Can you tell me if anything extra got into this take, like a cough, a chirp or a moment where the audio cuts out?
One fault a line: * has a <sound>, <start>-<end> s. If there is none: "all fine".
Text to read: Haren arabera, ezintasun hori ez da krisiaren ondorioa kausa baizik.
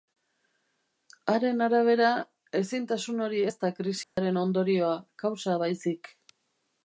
* has a dropout, 4.0-4.2 s